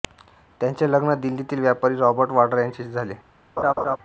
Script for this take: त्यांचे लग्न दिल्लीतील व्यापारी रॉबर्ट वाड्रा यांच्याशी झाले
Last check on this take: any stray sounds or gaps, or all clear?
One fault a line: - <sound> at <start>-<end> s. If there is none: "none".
- laugh at 3.6-4.0 s